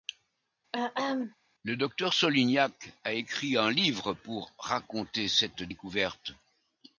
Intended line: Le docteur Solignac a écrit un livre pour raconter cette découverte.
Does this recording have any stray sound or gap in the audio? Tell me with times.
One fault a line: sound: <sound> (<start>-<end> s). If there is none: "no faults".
sound: throat clearing (0.7-1.3 s)